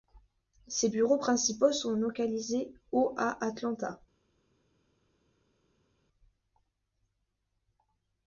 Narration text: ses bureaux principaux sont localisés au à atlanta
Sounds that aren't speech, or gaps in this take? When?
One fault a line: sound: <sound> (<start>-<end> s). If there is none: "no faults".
no faults